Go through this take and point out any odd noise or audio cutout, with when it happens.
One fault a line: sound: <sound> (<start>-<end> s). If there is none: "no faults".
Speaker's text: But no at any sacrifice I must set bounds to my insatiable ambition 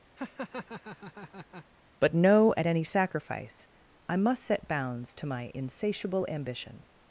sound: laugh (0.2-1.7 s)